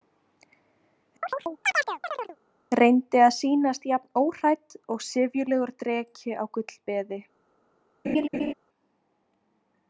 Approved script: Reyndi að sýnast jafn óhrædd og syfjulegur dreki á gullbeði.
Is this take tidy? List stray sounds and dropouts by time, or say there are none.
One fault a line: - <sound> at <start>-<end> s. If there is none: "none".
- chirp at 1.2-2.4 s
- laugh at 8.0-8.5 s